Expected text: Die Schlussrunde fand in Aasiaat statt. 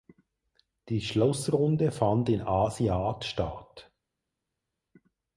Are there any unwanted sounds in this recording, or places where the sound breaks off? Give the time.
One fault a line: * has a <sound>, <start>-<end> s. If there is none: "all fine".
all fine